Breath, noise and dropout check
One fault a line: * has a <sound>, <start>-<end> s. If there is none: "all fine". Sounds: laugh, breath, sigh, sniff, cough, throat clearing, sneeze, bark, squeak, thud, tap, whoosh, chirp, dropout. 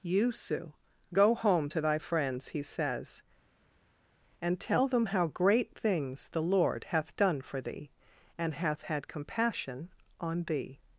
all fine